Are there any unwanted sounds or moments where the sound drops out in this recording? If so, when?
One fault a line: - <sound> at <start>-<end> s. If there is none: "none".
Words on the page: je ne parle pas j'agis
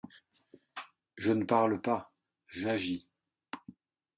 none